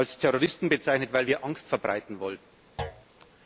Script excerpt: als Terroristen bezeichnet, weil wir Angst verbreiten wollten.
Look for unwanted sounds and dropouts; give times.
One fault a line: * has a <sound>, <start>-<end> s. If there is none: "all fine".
* has a thud, 2.8-3.1 s